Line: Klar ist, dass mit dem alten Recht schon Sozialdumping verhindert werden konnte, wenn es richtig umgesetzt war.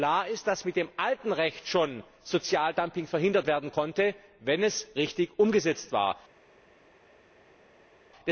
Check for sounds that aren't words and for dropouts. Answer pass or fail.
pass